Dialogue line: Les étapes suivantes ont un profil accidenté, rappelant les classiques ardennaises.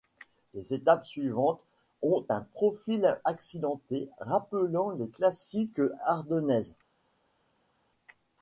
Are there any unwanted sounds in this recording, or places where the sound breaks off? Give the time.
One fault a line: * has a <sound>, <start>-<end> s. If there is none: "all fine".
all fine